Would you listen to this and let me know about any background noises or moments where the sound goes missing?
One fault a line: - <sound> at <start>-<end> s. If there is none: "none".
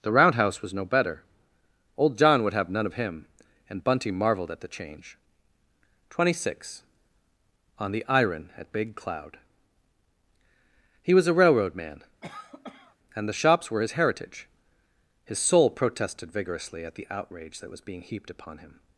- cough at 12.2-13.0 s